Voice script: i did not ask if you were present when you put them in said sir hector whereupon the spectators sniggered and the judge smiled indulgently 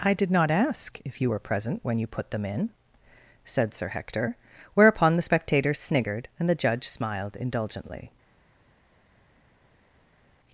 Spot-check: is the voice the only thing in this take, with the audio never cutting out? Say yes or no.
yes